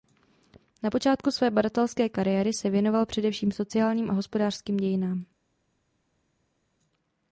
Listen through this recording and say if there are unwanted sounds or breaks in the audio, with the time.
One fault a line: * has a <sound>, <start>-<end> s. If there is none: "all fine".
all fine